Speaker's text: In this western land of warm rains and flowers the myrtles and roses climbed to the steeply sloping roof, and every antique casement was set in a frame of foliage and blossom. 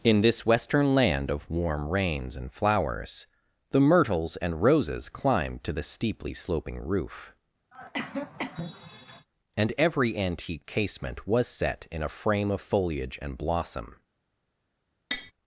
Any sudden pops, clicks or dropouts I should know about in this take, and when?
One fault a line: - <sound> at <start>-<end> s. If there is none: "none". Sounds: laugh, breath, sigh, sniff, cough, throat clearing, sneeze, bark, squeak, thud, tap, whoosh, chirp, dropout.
- cough at 7.7-9.3 s
- tap at 15.1-15.3 s